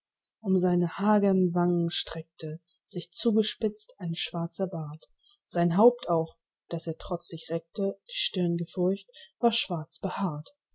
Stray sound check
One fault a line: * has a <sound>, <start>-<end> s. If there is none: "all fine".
all fine